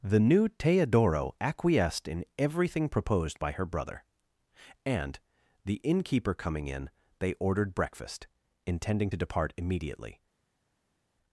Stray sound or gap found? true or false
false